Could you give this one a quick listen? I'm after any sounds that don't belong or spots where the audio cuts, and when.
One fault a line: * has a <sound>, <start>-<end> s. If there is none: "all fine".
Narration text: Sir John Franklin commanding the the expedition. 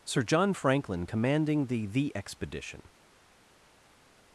all fine